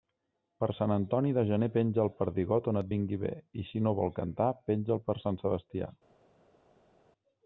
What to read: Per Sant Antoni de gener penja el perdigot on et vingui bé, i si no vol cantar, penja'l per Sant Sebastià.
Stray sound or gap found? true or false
false